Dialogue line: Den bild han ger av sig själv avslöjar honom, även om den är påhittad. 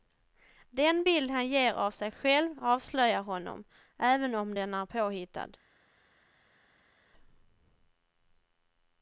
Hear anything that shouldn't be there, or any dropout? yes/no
no